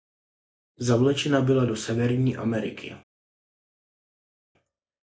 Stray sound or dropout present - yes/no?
no